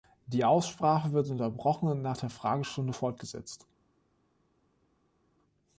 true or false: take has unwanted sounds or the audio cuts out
false